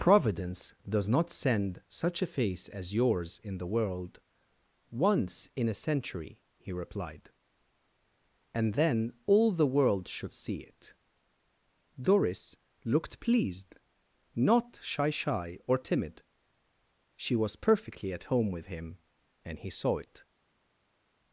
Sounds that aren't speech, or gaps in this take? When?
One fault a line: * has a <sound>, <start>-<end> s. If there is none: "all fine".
all fine